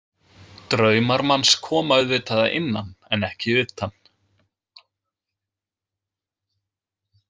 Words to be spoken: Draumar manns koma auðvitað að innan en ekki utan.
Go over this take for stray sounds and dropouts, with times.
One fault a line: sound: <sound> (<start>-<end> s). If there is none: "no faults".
no faults